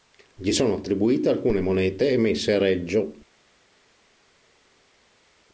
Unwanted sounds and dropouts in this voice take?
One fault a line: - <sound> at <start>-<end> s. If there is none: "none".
none